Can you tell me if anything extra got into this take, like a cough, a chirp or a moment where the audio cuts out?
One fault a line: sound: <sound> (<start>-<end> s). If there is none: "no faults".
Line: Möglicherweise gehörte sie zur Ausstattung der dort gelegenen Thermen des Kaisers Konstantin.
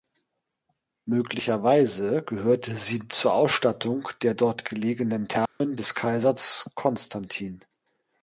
sound: dropout (5.5-5.6 s)